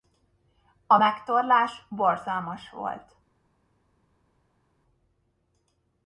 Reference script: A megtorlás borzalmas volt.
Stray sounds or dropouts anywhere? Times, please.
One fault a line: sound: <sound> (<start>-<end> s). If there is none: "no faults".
no faults